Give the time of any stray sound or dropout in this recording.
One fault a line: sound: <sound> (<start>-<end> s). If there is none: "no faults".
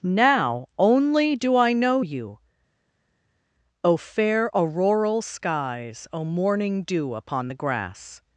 no faults